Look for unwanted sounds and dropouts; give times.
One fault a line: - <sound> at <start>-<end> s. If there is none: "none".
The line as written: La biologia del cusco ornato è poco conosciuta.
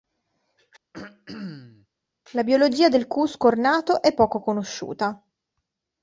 - throat clearing at 0.9-1.9 s